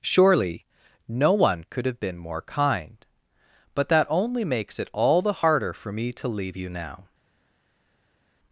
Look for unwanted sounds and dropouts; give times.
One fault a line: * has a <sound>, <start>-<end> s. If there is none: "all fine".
all fine